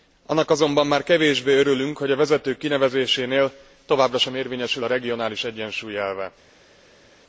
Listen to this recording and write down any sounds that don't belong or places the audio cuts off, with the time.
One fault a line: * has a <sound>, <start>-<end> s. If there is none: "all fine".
all fine